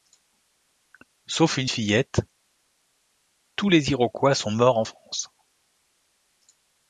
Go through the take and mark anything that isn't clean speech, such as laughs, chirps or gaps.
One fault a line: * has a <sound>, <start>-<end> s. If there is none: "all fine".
all fine